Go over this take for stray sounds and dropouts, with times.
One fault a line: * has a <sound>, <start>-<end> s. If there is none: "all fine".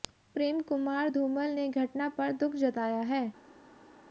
all fine